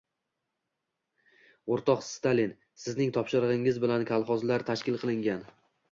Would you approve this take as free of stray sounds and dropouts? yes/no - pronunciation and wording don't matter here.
yes